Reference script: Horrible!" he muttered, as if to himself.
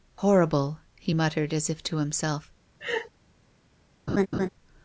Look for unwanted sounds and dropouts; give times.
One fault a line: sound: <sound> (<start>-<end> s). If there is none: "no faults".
sound: laugh (2.8-3.1 s)
sound: laugh (4.1-4.5 s)